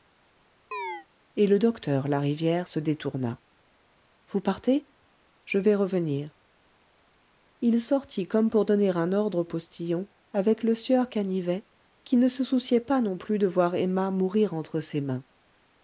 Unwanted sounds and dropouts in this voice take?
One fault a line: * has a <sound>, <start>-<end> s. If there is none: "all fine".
* has a chirp, 0.7-1.1 s